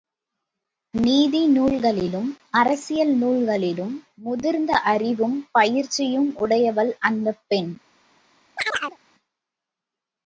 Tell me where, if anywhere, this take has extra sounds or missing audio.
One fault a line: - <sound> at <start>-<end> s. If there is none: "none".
- chirp at 8.6-9.0 s